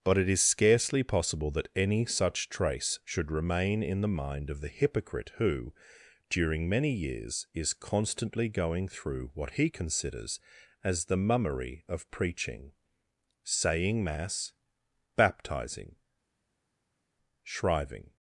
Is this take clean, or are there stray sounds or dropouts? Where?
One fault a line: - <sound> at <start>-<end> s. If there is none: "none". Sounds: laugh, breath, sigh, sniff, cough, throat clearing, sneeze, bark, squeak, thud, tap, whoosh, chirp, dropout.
none